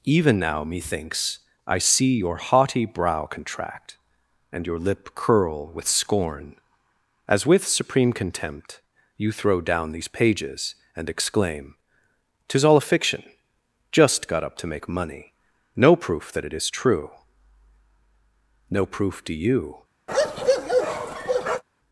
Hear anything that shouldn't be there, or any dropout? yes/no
yes